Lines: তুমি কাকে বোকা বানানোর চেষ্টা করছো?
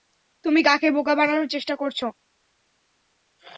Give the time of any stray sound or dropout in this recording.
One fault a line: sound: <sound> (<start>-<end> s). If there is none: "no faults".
no faults